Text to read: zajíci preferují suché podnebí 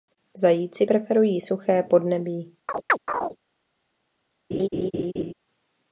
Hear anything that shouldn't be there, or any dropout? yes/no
yes